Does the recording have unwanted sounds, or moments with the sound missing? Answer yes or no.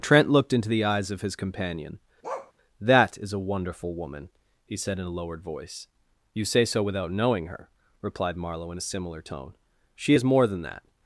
yes